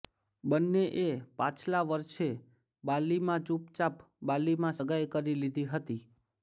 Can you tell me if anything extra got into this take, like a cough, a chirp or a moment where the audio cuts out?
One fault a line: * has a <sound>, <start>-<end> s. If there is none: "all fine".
all fine